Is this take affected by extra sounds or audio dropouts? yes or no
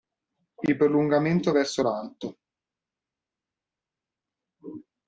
no